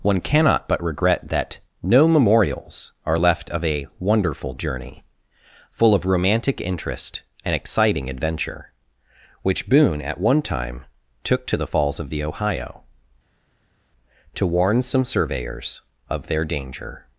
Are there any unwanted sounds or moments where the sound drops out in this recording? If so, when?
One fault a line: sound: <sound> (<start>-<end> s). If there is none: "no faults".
no faults